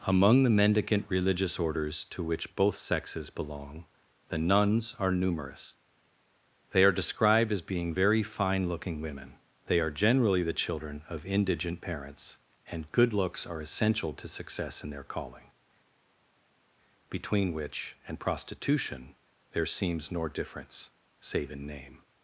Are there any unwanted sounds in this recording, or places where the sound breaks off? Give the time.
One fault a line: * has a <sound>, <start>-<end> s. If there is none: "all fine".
all fine